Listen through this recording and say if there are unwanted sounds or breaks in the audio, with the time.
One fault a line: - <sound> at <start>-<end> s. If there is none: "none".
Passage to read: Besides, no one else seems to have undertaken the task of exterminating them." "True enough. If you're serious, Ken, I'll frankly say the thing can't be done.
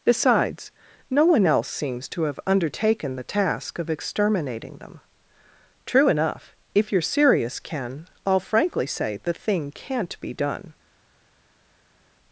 none